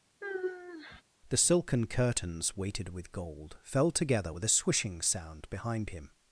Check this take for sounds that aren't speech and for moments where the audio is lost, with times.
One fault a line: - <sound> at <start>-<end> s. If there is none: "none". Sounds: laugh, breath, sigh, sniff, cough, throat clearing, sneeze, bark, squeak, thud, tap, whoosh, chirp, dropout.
- sigh at 0.2-1.0 s